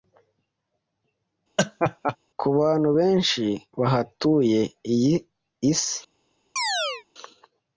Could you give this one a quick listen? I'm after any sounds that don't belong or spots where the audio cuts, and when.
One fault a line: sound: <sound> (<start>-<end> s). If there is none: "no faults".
sound: laugh (1.6-2.2 s)
sound: chirp (6.6-7.0 s)